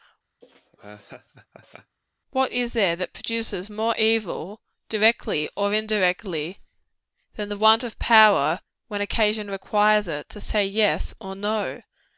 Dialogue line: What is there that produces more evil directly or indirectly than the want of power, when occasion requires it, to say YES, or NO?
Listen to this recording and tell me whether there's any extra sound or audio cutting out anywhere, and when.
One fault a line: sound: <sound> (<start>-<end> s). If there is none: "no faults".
sound: laugh (0.4-2.0 s)